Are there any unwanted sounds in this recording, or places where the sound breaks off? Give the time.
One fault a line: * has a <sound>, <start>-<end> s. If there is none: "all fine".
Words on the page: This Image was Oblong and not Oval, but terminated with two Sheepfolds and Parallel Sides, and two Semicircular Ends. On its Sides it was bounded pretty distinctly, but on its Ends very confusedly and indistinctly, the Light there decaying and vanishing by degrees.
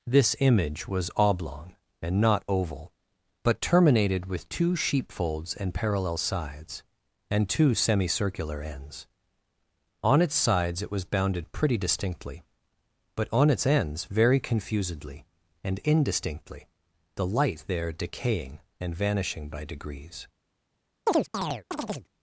* has a chirp, 21.1-22.1 s